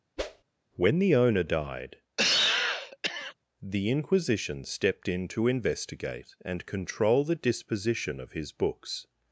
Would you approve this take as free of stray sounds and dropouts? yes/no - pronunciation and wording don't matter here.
no